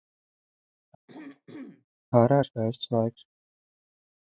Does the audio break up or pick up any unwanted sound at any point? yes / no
yes